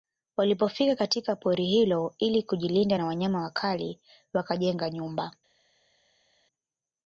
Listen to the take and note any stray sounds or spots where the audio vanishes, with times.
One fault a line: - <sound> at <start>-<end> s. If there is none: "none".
none